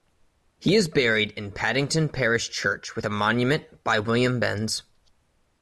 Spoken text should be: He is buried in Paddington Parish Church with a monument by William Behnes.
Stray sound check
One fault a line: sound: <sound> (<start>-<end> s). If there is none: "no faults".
no faults